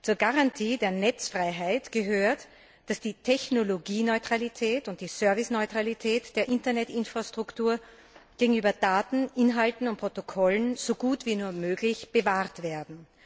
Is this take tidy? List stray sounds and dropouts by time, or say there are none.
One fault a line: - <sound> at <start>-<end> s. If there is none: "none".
none